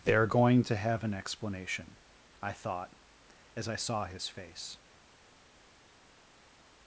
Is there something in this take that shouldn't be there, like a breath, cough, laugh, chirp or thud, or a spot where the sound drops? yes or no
no